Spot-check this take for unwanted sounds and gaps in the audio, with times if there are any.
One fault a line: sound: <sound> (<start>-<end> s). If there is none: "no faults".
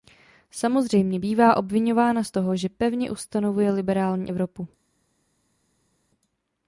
no faults